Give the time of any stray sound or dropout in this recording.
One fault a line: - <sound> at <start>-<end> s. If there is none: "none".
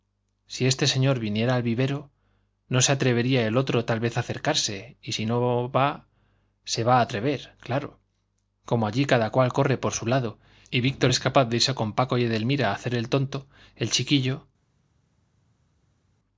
none